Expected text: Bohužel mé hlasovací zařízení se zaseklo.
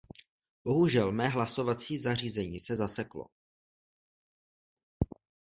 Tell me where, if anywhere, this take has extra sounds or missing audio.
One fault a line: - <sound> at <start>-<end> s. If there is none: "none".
none